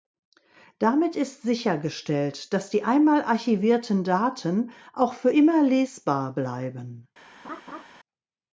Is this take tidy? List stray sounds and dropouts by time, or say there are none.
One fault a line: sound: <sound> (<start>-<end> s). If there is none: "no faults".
sound: laugh (7.4-7.8 s)